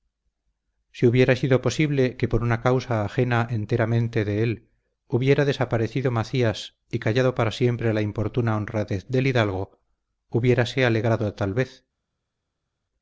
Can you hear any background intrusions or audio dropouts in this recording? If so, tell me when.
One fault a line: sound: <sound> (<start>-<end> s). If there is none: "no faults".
no faults